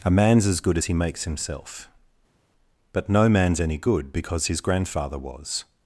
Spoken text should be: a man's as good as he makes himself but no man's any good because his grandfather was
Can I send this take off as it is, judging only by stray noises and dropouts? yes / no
yes